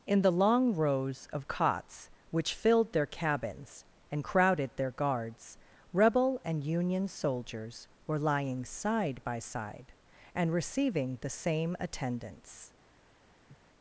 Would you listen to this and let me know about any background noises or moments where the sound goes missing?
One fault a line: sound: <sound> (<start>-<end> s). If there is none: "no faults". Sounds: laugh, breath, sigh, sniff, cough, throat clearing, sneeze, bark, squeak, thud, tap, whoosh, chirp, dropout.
sound: sniff (13.5-13.6 s)